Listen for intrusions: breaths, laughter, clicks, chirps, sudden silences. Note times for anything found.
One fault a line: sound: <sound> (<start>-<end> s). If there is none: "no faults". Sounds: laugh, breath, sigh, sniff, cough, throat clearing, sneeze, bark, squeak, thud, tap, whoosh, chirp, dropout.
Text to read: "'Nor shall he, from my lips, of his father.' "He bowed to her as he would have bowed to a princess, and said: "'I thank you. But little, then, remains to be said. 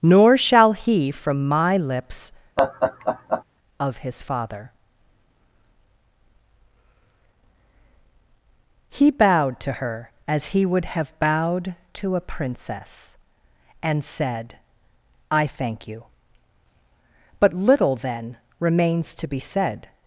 sound: laugh (2.6-3.4 s)